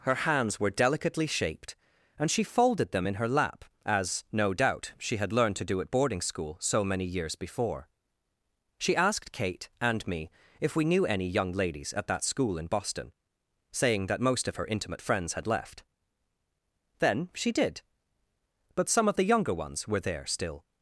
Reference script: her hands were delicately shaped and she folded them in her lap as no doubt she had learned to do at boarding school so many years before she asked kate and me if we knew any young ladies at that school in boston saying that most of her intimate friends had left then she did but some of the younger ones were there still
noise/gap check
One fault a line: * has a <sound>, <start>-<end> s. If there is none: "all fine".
all fine